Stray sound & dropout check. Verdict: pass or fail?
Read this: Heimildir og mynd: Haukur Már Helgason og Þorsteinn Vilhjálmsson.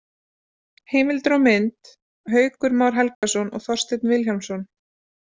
fail